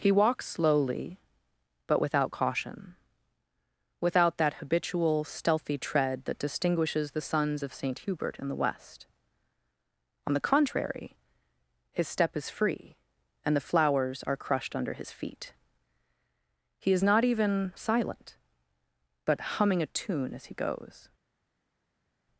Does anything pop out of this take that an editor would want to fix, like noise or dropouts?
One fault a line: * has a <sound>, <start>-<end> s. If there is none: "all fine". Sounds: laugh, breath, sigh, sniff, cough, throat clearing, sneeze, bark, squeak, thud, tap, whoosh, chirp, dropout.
all fine